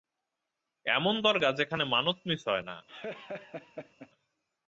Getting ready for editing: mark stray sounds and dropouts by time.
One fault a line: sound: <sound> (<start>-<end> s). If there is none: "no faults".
sound: laugh (2.9-4.1 s)